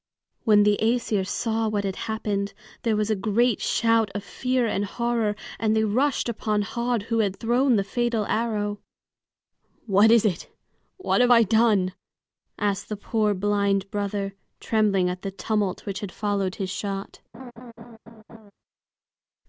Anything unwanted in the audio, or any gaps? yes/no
yes